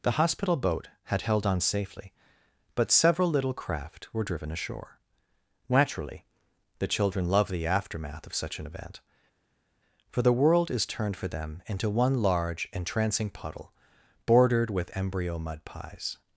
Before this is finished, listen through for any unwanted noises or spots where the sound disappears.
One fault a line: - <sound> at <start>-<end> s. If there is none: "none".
none